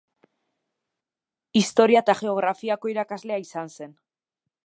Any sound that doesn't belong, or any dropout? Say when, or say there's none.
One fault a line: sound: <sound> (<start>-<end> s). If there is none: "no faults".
no faults